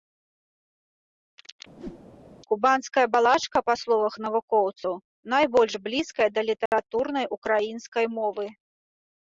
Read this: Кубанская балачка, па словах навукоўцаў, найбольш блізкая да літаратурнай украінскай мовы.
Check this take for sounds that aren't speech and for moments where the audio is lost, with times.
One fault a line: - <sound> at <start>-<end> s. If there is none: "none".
- whoosh at 1.8-2.0 s
- dropout at 6.7-6.7 s